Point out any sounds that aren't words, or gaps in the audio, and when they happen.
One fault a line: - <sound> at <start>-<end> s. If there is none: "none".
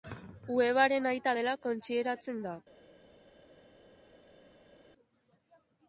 none